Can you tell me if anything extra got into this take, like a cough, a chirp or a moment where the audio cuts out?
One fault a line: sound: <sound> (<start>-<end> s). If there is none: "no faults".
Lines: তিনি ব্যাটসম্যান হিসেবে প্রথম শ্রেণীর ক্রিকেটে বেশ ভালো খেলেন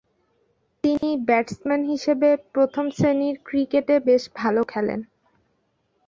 sound: dropout (1.0-1.0 s)